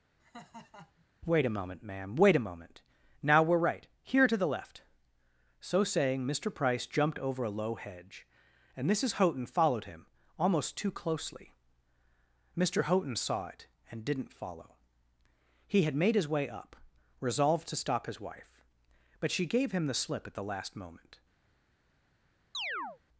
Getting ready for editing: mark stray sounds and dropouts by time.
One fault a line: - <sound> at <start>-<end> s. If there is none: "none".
- laugh at 0.2-1.0 s
- chirp at 22.5-23.0 s